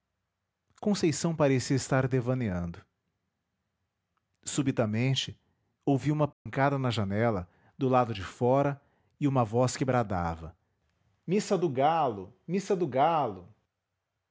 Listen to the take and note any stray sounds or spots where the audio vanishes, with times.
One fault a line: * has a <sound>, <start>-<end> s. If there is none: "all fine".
* has a dropout, 6.3-6.5 s